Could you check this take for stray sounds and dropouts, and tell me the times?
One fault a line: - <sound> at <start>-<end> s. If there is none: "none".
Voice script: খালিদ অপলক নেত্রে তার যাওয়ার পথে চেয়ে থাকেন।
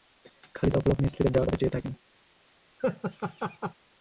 - laugh at 2.8-3.7 s